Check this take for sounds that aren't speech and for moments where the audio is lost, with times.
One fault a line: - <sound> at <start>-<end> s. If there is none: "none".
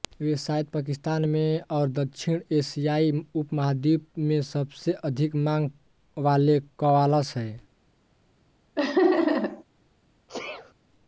- laugh at 8.8-9.6 s
- sneeze at 10.3-10.7 s